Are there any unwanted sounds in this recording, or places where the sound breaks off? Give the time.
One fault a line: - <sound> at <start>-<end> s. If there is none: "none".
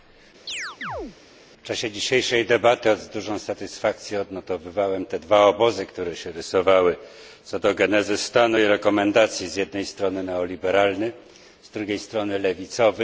- chirp at 0.5-1.2 s